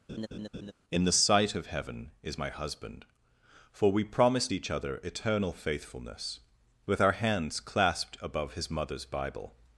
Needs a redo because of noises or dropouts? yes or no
yes